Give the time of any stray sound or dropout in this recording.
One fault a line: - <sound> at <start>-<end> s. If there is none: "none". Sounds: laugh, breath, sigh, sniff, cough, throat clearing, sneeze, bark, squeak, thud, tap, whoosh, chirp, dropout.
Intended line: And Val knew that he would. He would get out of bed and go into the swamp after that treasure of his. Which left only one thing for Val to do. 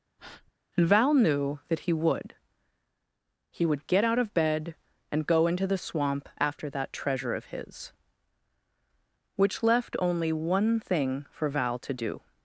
- breath at 0.2-0.5 s